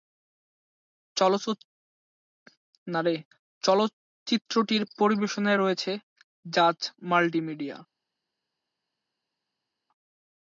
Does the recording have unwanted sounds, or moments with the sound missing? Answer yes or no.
no